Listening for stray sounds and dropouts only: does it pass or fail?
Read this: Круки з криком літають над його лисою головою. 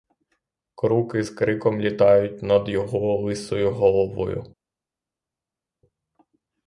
pass